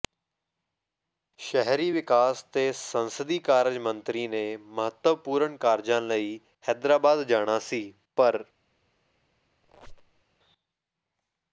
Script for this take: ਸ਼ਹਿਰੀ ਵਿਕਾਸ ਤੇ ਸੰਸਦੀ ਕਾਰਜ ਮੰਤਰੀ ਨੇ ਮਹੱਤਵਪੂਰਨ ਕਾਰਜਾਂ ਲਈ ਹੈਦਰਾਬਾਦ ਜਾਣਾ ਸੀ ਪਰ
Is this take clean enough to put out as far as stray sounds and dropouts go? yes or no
no